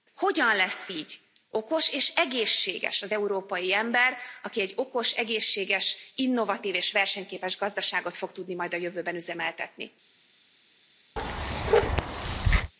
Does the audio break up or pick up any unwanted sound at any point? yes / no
yes